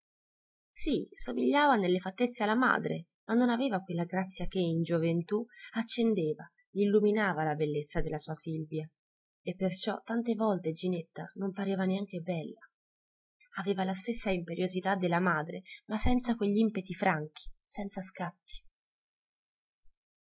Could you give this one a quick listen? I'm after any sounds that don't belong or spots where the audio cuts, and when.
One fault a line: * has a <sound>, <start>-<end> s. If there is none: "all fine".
all fine